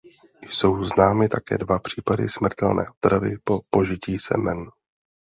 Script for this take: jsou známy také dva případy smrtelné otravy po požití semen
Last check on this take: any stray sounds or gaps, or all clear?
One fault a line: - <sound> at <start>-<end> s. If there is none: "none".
none